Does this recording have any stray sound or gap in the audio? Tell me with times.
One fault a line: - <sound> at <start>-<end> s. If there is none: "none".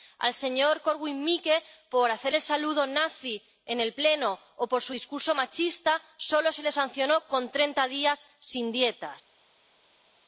none